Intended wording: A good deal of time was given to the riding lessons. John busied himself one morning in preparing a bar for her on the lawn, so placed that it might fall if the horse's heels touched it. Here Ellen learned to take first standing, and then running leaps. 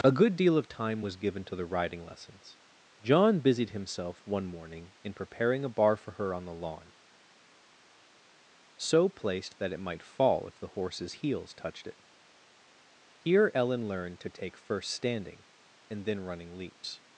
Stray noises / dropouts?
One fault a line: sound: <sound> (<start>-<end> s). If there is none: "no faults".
no faults